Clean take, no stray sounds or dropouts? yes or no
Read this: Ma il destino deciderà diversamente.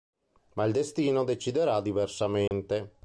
no